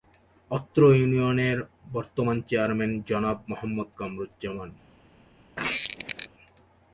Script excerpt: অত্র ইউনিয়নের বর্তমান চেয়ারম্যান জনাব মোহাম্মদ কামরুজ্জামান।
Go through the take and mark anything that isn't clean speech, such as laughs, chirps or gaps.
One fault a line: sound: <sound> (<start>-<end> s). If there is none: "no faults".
sound: squeak (5.6-6.3 s)